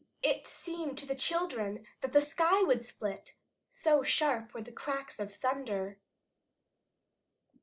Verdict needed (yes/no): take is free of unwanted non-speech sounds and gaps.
yes